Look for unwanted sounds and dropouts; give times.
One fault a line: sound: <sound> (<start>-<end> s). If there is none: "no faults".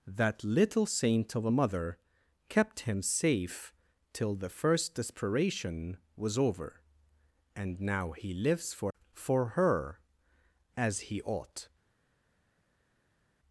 no faults